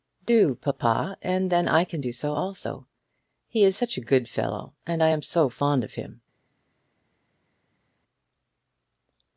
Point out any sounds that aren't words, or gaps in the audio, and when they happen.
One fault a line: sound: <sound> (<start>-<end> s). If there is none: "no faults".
no faults